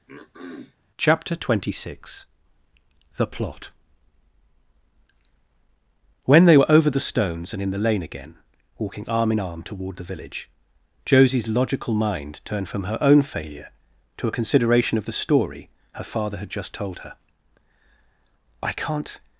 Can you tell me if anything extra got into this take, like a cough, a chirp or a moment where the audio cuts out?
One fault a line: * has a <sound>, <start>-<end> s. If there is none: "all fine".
* has a throat clearing, 0.1-0.8 s